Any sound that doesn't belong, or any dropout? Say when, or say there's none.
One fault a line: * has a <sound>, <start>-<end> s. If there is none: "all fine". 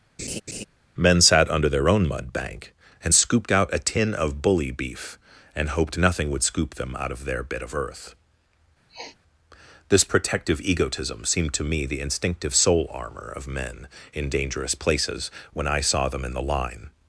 * has a laugh, 0.2-0.6 s
* has a sniff, 8.9-9.2 s